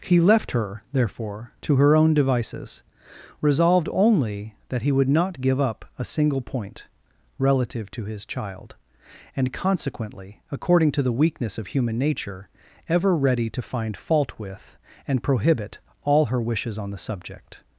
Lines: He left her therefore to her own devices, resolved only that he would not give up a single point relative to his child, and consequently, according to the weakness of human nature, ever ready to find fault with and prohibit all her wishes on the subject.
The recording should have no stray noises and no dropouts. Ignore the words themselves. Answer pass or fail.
pass